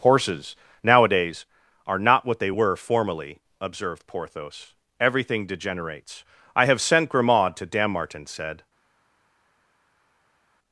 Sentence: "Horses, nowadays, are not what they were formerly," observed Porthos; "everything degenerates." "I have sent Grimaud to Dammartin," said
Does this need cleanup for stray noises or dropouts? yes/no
no